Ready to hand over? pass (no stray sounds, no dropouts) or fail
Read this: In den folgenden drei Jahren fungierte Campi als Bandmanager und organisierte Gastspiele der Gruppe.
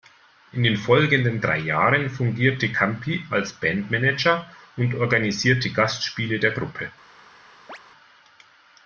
fail